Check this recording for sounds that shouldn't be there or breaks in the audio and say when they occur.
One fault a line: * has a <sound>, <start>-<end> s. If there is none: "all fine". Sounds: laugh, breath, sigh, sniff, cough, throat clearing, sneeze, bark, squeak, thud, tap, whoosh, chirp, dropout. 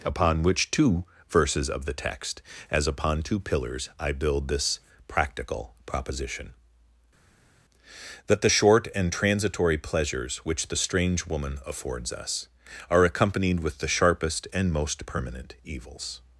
all fine